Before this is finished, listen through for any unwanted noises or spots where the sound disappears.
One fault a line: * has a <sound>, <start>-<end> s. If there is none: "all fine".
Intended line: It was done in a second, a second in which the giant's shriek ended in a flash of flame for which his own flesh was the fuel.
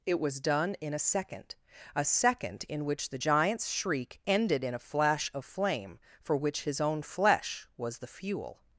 all fine